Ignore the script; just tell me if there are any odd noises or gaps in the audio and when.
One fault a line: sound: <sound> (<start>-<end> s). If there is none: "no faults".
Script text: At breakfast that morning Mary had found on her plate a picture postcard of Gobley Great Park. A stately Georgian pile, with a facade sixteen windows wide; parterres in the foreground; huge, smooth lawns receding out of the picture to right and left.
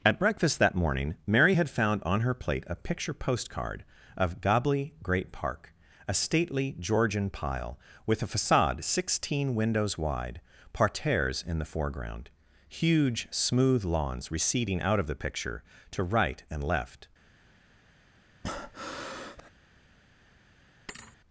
sound: breath (18.4-19.5 s)
sound: thud (20.9-21.2 s)